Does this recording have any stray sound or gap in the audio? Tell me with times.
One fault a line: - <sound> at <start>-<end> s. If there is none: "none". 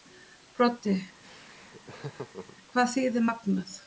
- laugh at 1.2-2.6 s